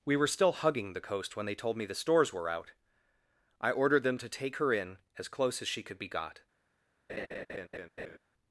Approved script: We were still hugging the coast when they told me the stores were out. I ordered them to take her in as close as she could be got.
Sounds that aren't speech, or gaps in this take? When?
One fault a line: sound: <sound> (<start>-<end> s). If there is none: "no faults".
sound: laugh (7.1-8.2 s)